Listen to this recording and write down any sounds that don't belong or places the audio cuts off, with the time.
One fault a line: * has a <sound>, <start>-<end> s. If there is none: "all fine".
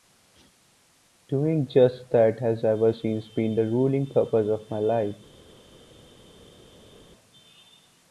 all fine